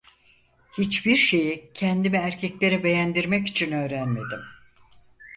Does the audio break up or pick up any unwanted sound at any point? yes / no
no